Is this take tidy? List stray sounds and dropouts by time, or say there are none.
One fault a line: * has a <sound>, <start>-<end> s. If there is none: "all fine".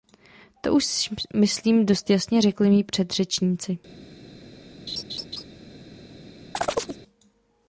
* has a laugh, 4.9-5.4 s
* has a chirp, 6.5-7.0 s